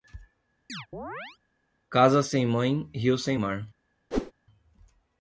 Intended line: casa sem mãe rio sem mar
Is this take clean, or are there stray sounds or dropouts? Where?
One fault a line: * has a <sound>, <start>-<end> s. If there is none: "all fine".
* has a chirp, 0.7-1.4 s
* has a whoosh, 4.1-4.3 s